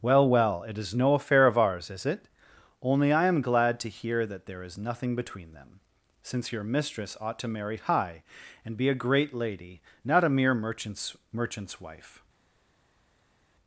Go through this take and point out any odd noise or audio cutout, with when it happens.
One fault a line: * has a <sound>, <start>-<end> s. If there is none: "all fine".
all fine